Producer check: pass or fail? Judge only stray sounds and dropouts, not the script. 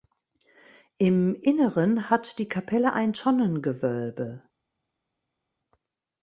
pass